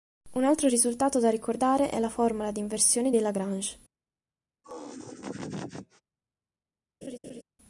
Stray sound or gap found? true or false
true